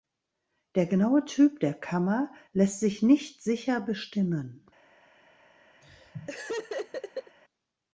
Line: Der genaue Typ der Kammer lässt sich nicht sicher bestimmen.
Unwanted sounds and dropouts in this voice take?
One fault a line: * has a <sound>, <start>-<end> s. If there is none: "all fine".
* has a laugh, 5.8-7.4 s